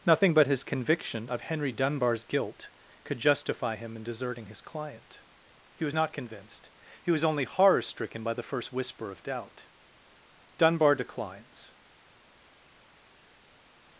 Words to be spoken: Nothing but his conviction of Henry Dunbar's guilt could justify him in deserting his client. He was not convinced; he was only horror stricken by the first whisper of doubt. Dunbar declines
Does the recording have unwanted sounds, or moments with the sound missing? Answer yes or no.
no